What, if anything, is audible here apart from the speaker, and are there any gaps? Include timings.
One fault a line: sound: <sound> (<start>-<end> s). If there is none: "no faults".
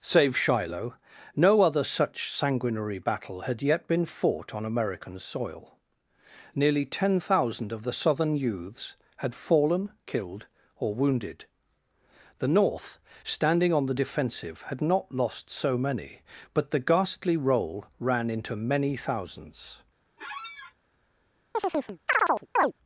sound: squeak (20.2-20.7 s)
sound: chirp (21.5-22.7 s)